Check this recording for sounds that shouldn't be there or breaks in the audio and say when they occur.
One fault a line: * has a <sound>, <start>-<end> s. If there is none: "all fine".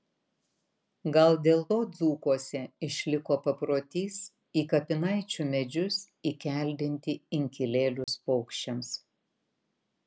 * has a dropout, 8.0-8.1 s